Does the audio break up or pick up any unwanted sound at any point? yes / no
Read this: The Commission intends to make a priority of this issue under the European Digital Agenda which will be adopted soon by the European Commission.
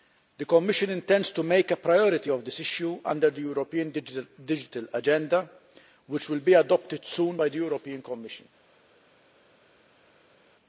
no